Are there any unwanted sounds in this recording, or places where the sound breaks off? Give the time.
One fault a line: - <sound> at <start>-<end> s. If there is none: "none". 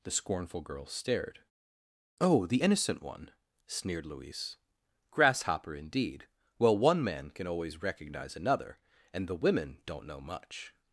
none